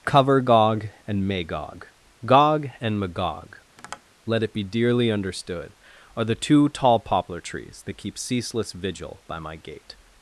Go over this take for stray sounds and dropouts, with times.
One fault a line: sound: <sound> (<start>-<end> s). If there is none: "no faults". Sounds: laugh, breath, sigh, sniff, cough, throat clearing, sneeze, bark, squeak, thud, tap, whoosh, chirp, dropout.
sound: tap (3.8-4.0 s)